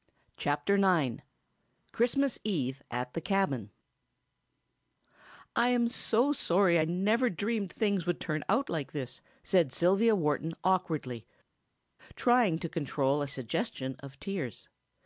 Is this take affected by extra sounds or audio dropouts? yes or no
no